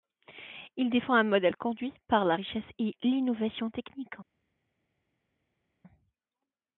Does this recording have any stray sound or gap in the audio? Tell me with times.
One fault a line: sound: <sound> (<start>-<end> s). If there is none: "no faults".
no faults